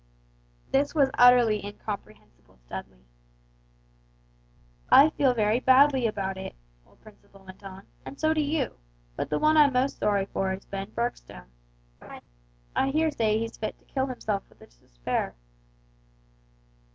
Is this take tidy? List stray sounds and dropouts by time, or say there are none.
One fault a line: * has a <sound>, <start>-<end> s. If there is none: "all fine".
* has a laugh, 12.0-12.2 s